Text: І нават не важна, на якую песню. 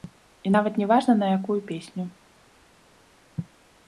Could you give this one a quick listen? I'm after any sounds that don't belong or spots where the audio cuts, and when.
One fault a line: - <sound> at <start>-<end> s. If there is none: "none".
none